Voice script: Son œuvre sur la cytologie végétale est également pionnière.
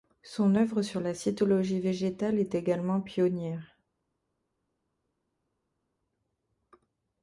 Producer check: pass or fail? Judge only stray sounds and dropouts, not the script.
pass